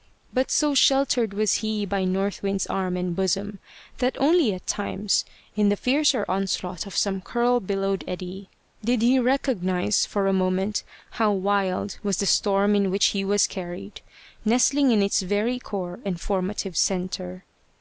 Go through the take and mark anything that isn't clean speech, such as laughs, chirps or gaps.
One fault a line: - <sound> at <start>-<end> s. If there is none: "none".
none